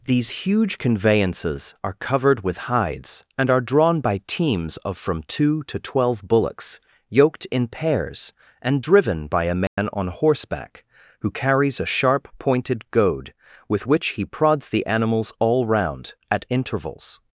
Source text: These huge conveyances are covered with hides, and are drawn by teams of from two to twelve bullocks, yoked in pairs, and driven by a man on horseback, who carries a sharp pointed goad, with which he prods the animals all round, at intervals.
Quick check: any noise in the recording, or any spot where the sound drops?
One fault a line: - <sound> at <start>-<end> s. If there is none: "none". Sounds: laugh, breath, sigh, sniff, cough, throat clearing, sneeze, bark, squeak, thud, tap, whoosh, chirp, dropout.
- dropout at 9.7-9.8 s